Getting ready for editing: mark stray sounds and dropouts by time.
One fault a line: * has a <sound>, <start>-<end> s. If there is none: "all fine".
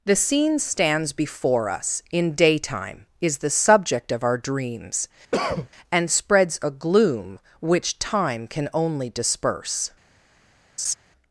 * has a cough, 5.3-5.7 s
* has a laugh, 10.8-11.0 s